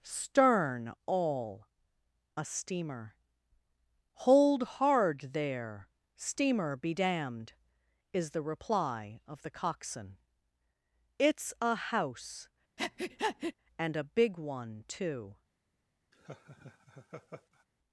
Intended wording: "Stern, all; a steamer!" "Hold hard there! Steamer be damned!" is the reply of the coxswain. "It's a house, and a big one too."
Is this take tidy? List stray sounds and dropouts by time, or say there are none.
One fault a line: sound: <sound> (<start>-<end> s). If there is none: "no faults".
sound: breath (12.8-13.5 s)
sound: laugh (16.1-17.6 s)